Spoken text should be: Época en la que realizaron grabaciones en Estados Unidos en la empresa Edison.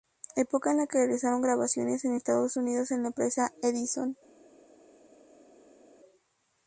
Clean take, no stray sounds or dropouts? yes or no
yes